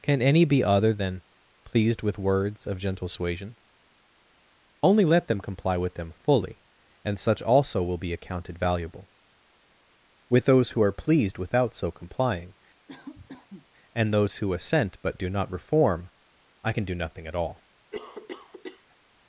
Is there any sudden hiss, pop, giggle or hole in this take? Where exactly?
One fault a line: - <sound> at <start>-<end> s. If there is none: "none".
- cough at 12.9-13.7 s
- cough at 17.9-19.0 s